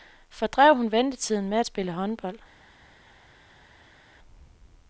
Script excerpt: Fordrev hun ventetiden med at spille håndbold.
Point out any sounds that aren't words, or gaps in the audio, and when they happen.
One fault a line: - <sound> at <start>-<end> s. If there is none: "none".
none